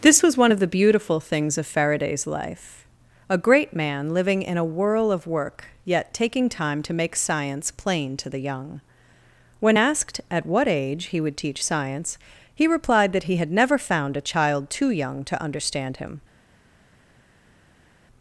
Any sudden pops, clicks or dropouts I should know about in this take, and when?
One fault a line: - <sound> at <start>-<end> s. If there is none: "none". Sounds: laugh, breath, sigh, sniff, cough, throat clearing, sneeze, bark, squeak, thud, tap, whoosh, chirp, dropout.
none